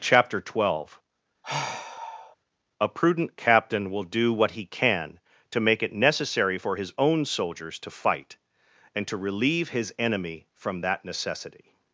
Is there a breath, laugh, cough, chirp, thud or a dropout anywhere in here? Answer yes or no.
yes